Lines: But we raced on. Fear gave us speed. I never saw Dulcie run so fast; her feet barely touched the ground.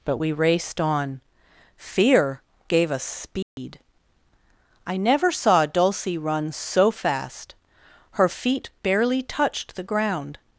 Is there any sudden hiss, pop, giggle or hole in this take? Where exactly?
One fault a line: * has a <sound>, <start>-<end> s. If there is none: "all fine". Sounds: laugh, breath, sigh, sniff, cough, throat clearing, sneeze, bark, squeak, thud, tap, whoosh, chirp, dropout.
* has a dropout, 3.4-3.6 s